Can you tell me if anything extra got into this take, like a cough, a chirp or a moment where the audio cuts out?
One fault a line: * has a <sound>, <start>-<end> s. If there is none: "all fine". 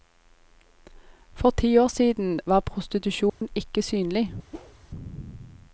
* has a dropout, 3.3-3.4 s
* has a whoosh, 4.5-4.8 s